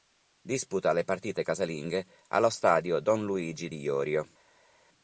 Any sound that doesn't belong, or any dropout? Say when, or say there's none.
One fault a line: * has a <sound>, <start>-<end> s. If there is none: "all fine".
all fine